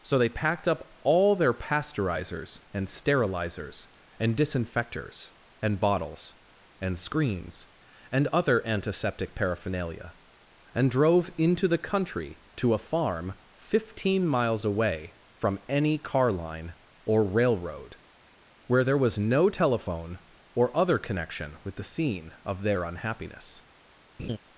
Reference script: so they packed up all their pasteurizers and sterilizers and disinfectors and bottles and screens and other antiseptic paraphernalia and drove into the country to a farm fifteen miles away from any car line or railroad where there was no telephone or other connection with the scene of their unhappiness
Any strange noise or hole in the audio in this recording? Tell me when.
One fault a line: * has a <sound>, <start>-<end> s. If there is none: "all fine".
* has a laugh, 24.2-24.4 s